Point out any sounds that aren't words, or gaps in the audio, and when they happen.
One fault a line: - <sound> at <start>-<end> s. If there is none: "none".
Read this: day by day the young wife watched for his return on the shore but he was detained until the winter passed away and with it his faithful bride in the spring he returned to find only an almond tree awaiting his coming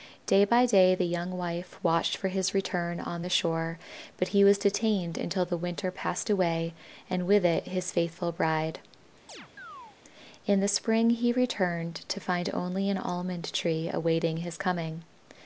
- chirp at 9.3-10.0 s